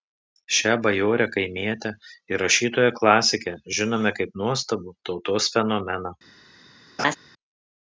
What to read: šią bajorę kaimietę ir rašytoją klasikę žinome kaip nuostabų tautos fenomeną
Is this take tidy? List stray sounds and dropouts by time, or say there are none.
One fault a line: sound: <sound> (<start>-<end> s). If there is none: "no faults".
sound: laugh (7.0-7.2 s)